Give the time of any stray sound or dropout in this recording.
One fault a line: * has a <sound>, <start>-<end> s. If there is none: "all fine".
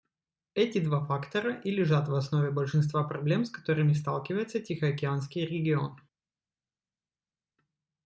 all fine